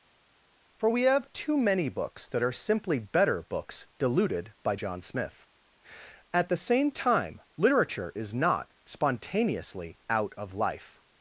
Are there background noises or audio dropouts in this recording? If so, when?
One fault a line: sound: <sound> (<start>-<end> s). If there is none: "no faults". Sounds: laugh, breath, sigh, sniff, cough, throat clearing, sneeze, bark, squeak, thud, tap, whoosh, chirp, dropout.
no faults